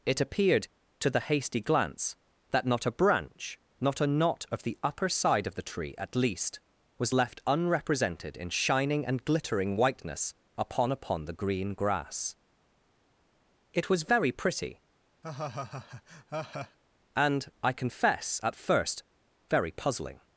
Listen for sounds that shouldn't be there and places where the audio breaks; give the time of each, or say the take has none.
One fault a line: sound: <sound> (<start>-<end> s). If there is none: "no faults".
sound: laugh (15.2-16.8 s)